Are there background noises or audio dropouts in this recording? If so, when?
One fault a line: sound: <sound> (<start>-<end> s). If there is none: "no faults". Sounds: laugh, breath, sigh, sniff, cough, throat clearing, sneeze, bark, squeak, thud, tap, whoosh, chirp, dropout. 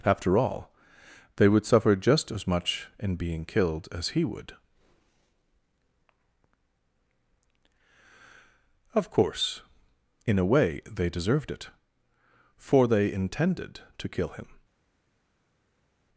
no faults